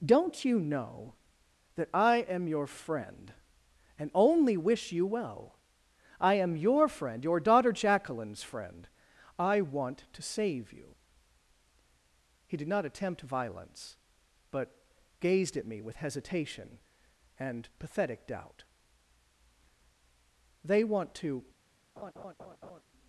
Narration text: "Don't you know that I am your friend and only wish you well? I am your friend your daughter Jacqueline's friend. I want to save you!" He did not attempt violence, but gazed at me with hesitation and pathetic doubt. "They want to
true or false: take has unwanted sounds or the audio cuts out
true